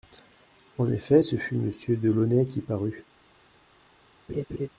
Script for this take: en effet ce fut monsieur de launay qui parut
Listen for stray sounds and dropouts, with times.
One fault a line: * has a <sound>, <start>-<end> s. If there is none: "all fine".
* has a laugh, 4.3-4.7 s